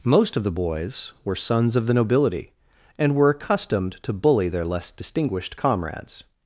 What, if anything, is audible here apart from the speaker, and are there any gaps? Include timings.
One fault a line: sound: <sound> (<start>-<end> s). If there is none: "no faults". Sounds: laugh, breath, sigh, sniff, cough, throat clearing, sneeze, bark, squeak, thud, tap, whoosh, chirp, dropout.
no faults